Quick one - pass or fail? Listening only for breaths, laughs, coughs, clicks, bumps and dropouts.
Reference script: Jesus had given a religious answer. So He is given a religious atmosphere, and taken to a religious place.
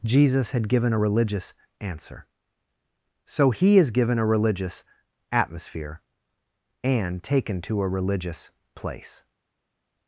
pass